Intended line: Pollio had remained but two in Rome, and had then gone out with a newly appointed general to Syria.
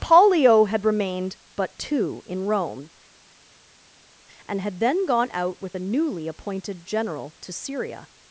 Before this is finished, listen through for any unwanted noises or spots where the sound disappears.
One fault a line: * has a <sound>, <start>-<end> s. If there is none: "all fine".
all fine